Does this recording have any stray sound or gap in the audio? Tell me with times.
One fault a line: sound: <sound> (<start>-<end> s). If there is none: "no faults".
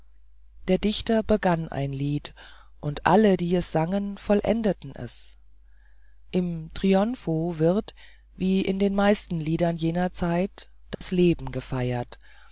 sound: dropout (10.9-11.0 s)